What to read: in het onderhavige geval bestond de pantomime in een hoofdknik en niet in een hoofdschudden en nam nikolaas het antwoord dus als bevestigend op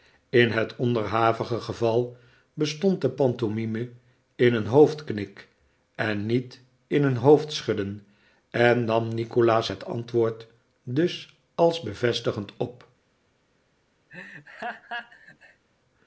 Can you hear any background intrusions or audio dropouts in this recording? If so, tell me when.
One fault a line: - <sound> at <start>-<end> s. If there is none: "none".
- laugh at 14.1-15.6 s